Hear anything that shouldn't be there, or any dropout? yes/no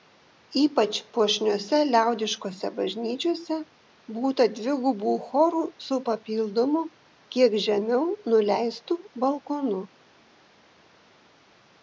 no